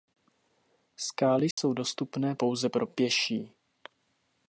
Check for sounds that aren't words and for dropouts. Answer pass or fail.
fail